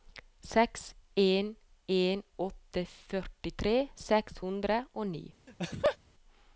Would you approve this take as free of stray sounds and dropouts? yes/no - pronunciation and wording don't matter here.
no